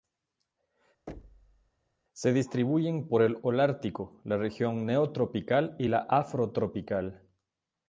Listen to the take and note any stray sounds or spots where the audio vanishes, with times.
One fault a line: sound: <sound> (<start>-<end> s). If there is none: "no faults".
sound: thud (1.1-1.7 s)